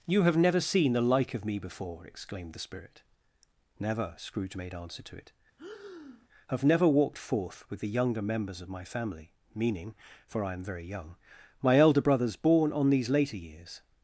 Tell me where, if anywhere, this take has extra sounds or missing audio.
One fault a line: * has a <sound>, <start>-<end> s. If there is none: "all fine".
* has a breath, 5.6-6.3 s